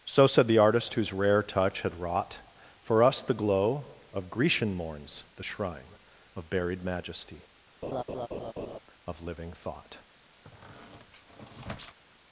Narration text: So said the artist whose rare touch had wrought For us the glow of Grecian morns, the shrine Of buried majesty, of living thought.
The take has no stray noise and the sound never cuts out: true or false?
false